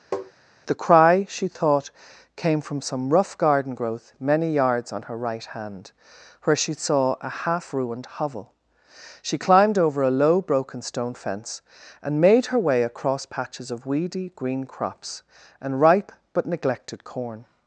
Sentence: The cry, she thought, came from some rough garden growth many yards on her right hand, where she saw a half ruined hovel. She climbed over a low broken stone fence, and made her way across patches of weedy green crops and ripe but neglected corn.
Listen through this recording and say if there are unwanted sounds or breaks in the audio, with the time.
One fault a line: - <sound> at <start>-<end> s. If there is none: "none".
- tap at 0.1-0.3 s